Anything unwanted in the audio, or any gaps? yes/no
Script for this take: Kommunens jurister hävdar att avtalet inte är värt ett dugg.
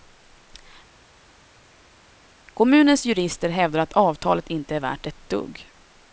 no